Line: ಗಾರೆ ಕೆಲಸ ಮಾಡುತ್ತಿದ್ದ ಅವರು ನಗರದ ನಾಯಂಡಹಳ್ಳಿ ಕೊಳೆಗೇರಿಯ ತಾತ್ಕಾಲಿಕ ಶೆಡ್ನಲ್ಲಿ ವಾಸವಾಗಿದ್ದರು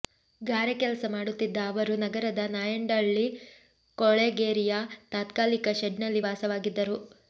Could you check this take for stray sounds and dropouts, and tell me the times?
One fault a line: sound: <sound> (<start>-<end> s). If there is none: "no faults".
no faults